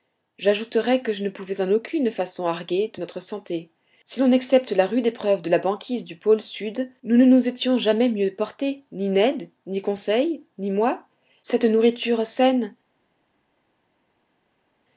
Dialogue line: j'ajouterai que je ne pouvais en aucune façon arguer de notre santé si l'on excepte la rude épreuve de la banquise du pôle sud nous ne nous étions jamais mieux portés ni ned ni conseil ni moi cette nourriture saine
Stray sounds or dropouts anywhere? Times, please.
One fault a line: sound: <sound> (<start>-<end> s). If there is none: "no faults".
no faults